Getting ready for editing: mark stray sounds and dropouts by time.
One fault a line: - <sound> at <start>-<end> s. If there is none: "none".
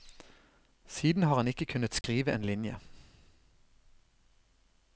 - dropout at 2.0-2.0 s